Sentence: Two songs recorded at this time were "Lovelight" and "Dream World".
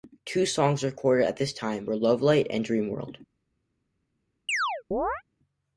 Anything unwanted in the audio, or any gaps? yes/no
yes